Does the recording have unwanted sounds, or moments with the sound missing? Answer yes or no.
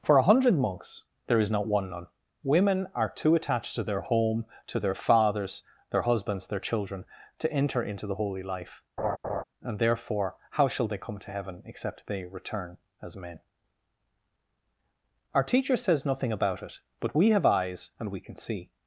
yes